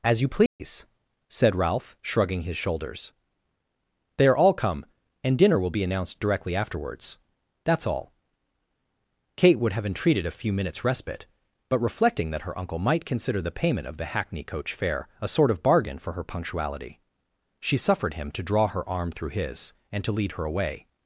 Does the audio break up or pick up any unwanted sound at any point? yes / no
yes